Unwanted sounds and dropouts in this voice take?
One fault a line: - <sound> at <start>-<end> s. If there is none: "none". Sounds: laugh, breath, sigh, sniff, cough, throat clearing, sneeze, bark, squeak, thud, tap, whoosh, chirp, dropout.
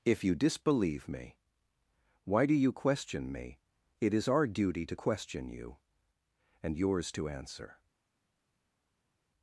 none